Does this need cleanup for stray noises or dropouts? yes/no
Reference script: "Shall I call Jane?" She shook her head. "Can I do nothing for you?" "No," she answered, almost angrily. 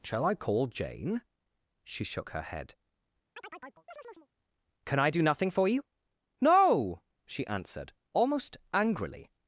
yes